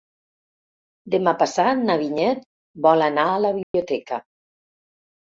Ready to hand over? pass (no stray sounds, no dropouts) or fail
fail